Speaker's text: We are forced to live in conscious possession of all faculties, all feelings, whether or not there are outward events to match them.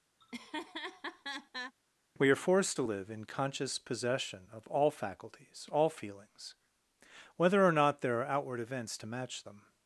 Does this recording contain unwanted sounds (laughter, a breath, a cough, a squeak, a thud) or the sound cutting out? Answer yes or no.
yes